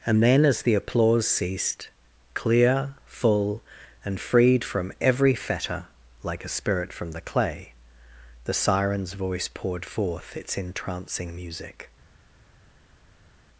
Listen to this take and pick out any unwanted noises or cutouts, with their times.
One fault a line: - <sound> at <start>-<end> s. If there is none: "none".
none